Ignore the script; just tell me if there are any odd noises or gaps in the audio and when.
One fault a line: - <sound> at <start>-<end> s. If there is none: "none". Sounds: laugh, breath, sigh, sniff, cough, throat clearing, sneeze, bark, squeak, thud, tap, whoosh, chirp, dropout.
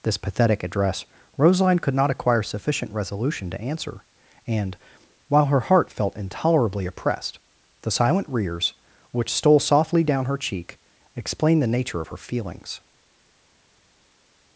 none